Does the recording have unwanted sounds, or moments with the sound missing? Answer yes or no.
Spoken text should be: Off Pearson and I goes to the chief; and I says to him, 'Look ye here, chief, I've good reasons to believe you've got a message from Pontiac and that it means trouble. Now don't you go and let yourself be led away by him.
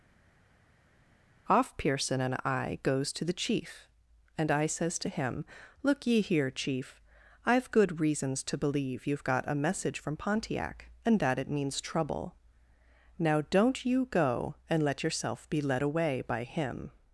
no